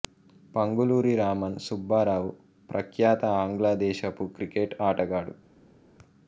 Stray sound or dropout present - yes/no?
no